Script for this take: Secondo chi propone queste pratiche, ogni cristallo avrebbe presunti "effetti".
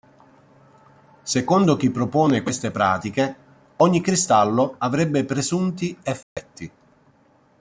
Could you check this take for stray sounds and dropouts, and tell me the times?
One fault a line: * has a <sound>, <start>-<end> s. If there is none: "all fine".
* has a dropout, 6.2-6.4 s